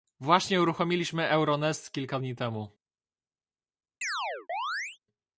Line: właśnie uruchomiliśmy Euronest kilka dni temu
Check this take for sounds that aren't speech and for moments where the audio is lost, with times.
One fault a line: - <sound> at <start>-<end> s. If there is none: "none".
- chirp at 4.0-5.0 s